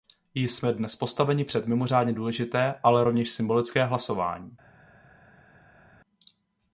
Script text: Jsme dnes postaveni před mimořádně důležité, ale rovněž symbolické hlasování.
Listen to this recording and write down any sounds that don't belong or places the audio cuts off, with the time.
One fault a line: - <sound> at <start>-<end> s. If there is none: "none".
none